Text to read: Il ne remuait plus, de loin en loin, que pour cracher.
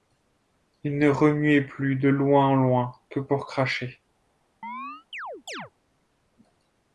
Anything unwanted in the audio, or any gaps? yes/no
yes